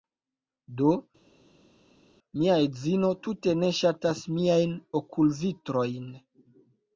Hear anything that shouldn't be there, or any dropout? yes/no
no